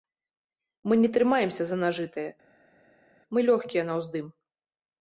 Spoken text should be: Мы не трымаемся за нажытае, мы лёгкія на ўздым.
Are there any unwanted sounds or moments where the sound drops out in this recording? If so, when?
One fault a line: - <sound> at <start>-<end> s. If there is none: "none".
none